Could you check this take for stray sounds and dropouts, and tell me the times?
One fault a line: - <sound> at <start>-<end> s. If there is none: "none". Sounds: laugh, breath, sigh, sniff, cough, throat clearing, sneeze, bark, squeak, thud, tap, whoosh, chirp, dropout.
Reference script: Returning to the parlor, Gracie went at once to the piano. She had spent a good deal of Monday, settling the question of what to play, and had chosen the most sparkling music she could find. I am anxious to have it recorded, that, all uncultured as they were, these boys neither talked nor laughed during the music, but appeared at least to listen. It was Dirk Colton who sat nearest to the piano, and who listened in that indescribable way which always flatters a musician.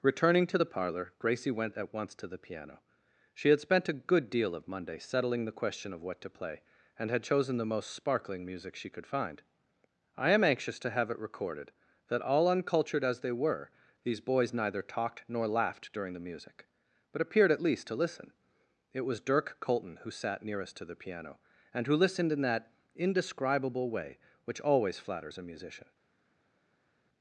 none